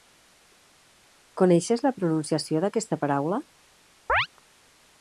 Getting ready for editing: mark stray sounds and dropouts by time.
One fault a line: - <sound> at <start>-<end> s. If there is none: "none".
- chirp at 4.1-4.3 s